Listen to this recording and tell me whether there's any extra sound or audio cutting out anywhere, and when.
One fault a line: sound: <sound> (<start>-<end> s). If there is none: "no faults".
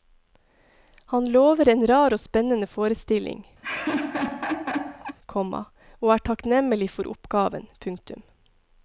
sound: laugh (3.6-5.2 s)